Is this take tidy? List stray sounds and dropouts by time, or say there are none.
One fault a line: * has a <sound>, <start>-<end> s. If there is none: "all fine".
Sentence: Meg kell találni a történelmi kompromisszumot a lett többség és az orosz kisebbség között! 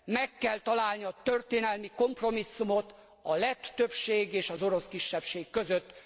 all fine